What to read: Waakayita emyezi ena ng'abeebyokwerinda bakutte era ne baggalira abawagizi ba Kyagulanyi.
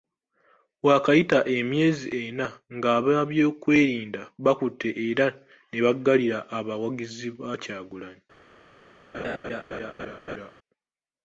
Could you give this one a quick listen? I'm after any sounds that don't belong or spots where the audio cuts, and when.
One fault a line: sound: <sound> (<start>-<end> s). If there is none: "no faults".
sound: laugh (9.1-10.5 s)